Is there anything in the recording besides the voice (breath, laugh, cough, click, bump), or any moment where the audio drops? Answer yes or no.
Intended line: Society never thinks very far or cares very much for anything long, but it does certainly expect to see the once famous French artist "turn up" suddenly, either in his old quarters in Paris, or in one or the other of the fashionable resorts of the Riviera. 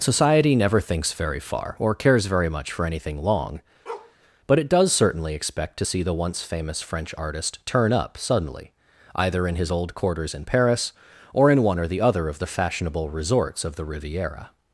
yes